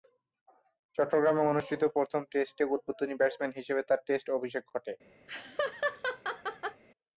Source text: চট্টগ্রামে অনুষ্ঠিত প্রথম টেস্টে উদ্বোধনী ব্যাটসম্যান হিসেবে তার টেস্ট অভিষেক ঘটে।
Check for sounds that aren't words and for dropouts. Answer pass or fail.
fail